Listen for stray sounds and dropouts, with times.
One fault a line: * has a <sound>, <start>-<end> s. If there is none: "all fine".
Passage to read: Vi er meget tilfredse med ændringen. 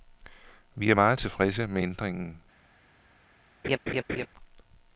* has a laugh, 3.6-4.3 s